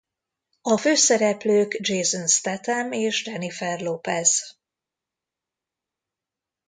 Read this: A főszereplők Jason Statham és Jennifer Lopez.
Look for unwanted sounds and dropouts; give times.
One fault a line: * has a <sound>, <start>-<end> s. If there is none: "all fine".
all fine